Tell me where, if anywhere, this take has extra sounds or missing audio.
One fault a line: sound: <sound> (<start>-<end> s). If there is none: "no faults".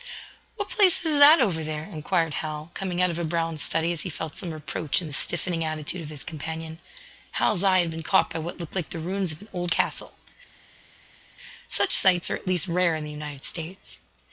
no faults